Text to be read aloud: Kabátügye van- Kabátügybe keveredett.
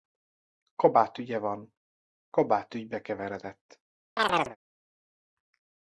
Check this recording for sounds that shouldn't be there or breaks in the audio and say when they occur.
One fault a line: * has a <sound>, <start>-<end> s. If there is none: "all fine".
* has a chirp, 4.2-4.6 s